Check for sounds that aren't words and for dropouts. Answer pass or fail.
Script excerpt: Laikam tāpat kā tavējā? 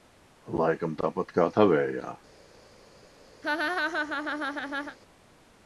fail